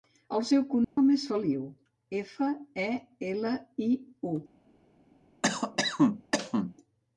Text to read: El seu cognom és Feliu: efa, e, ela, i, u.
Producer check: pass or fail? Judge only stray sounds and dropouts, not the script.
fail